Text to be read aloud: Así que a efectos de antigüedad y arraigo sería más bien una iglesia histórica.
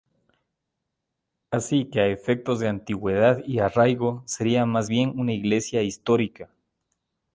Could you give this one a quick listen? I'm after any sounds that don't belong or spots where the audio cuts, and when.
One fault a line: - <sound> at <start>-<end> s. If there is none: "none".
none